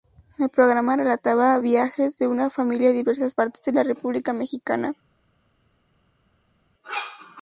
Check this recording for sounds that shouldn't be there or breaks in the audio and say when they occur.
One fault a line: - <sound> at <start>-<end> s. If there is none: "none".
none